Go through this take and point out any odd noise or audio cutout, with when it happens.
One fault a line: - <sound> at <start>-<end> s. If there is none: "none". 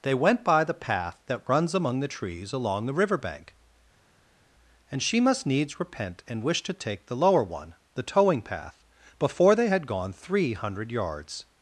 none